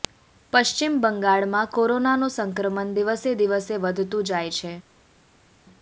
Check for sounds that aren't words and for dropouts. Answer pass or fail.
pass